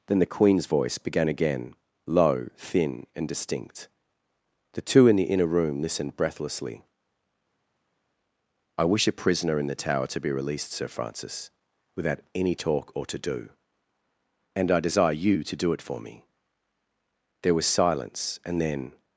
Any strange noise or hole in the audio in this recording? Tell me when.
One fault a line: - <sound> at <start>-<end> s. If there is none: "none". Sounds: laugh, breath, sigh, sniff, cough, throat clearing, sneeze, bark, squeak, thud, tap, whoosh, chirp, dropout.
none